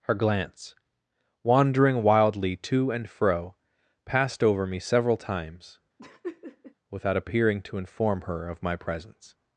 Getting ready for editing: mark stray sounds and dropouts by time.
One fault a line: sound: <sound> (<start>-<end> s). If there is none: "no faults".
sound: laugh (6.0-6.7 s)